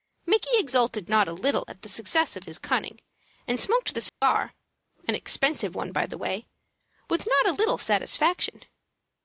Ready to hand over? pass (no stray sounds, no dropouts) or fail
fail